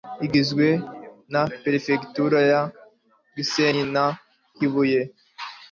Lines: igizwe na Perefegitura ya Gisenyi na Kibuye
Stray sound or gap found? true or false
false